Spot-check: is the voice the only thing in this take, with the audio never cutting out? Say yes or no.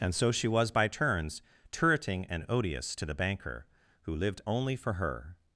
yes